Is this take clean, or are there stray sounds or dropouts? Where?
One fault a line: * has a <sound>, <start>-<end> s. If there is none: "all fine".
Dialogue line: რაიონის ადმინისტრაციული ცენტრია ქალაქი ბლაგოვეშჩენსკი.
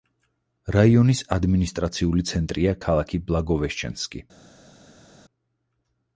all fine